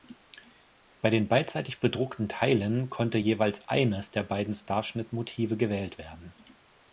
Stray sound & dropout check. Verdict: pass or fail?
pass